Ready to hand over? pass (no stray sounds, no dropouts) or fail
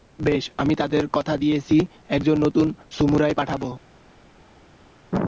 pass